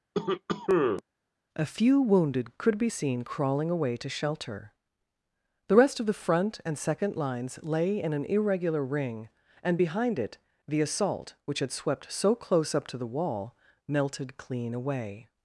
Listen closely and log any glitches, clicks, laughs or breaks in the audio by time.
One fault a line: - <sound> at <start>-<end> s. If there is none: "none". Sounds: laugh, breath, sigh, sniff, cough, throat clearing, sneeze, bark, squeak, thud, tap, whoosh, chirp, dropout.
- cough at 0.1-1.0 s